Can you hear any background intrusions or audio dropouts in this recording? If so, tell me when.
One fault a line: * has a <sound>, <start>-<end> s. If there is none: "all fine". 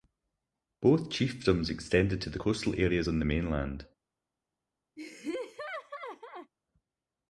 * has a laugh, 5.0-6.5 s